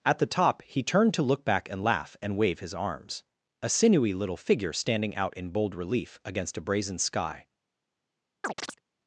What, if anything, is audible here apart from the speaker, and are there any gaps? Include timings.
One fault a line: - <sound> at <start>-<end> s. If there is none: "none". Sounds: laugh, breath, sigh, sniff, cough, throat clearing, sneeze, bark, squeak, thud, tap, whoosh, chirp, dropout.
- chirp at 8.4-8.8 s